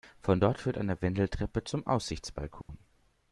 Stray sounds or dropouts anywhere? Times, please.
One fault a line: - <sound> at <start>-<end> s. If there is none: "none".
- dropout at 2.6-2.7 s